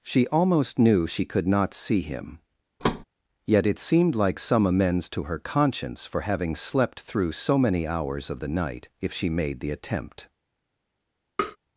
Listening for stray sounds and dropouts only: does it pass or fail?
fail